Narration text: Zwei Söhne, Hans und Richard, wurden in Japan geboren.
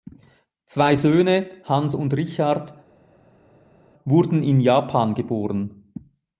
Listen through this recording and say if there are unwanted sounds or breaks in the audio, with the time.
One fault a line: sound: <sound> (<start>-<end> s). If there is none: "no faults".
no faults